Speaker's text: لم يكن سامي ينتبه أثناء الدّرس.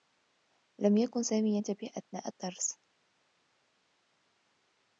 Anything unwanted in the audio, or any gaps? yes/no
no